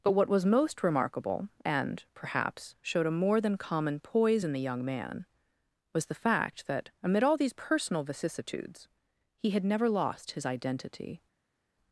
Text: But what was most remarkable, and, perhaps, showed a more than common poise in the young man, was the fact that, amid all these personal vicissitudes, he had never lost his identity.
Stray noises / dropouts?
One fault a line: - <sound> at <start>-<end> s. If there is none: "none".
none